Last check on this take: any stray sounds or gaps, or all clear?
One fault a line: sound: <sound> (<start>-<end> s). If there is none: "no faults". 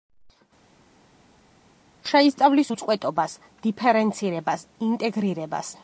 no faults